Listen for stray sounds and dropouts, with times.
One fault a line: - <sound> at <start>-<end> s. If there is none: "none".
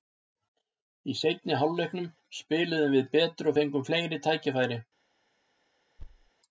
- thud at 6.0-6.3 s